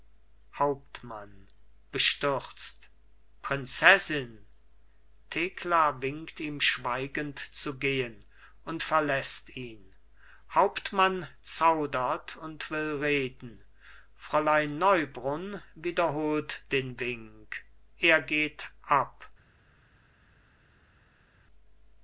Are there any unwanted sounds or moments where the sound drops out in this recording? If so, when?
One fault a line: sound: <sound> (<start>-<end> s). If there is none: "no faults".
no faults